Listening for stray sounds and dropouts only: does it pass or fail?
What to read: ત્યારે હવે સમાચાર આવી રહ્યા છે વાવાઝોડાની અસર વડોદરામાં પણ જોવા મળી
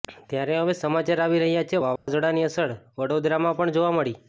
fail